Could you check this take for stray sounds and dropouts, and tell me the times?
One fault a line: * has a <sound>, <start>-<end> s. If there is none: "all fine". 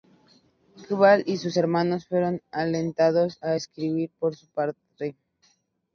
all fine